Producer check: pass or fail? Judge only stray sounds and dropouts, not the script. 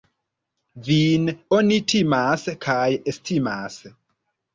pass